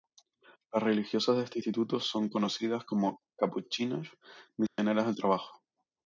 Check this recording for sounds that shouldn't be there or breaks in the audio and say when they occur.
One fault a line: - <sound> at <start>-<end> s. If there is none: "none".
- dropout at 4.7-4.8 s